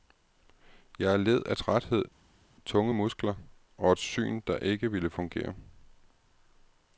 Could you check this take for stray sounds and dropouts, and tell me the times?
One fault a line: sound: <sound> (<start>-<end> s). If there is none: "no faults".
no faults